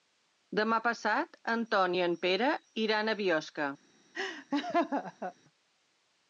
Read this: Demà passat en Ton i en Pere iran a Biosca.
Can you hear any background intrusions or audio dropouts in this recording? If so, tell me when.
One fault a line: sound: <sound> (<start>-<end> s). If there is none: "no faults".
sound: laugh (4.1-5.3 s)